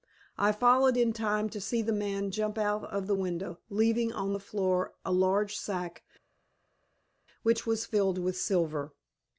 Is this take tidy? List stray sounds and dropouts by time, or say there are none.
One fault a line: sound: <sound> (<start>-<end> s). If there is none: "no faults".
no faults